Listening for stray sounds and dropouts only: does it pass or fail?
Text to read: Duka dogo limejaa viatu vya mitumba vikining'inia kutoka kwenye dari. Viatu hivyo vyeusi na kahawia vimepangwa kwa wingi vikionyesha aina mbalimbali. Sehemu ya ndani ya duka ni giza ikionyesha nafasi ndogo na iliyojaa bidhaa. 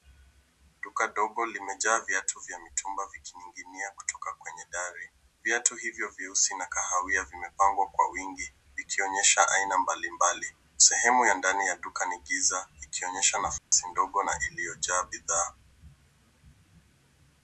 fail